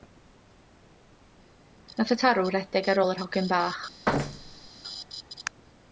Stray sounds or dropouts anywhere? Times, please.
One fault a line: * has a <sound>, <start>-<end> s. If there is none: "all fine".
* has a thud, 4.1-4.7 s